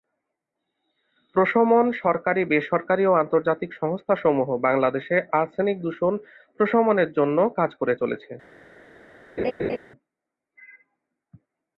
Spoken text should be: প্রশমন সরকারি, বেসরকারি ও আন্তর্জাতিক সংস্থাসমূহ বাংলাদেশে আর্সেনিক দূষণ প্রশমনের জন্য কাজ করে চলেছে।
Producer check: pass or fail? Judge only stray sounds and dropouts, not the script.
fail